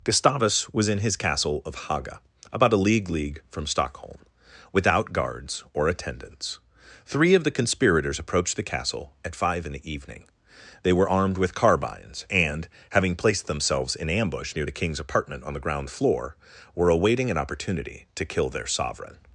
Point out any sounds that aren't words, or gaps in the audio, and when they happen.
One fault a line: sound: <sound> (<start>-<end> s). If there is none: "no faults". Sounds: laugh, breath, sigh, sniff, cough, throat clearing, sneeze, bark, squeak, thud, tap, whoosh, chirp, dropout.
no faults